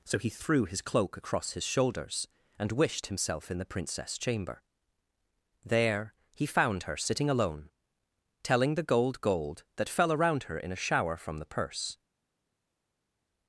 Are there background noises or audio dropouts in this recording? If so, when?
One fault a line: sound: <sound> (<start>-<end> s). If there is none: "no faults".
no faults